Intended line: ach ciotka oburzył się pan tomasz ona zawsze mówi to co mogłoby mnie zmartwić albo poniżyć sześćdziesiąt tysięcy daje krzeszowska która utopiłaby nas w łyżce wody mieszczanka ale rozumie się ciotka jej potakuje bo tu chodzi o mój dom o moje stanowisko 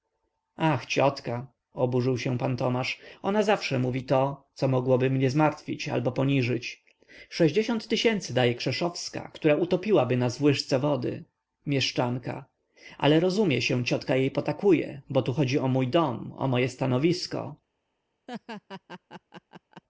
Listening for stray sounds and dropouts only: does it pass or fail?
fail